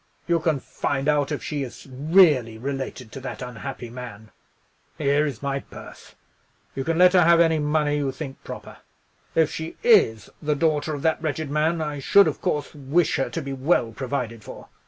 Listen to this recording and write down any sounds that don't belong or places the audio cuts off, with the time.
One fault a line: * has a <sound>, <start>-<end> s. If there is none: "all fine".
all fine